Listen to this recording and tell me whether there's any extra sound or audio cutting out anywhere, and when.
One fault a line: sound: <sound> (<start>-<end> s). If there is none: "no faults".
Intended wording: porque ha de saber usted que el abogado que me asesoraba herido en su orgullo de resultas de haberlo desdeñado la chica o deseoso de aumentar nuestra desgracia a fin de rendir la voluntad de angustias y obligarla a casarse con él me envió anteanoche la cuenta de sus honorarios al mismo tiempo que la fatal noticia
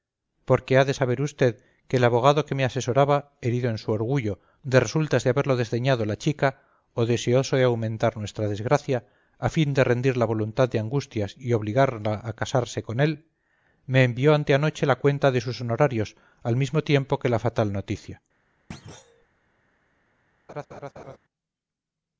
sound: thud (18.7-19.3 s)
sound: laugh (20.5-21.2 s)